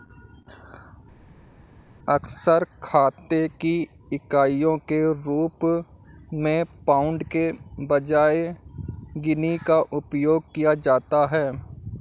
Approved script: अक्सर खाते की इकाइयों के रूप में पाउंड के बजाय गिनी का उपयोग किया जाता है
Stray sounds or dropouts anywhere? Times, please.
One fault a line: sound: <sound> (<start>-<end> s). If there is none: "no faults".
no faults